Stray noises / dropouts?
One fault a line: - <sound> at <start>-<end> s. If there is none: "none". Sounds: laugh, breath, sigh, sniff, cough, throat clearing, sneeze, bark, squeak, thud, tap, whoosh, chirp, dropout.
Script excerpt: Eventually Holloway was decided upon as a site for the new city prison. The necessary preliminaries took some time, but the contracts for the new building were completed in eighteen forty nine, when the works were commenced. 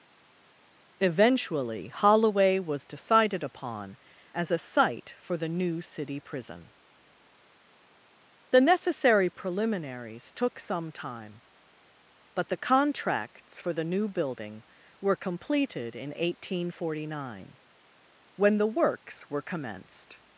none